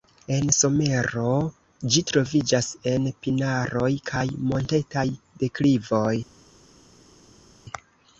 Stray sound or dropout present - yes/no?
no